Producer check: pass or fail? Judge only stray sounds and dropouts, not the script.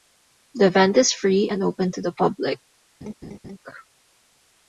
fail